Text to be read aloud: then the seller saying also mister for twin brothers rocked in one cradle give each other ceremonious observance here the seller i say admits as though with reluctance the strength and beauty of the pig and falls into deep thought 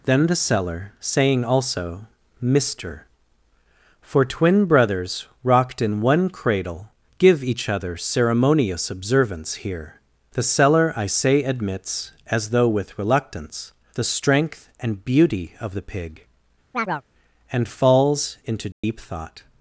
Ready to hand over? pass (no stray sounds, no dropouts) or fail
fail